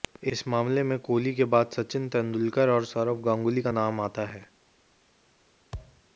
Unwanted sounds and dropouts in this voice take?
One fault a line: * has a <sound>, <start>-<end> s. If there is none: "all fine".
* has a thud, 5.7-6.0 s